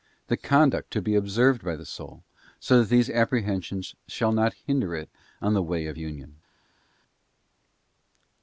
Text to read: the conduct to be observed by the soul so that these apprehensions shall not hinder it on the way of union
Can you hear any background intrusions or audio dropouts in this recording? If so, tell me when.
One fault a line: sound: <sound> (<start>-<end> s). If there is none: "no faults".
no faults